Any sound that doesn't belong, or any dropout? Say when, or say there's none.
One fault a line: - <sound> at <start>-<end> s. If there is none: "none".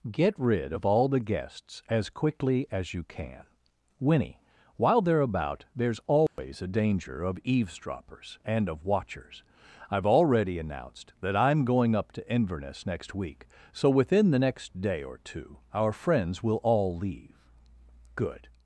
- dropout at 6.3-6.4 s